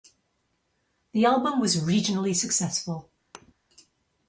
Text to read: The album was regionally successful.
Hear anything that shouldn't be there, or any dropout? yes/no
yes